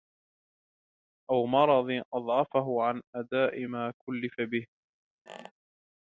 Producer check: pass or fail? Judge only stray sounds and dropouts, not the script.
fail